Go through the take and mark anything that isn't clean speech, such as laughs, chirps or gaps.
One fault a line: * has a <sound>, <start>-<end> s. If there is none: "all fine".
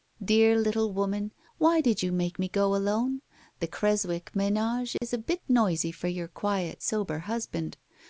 * has a dropout, 5.0-5.0 s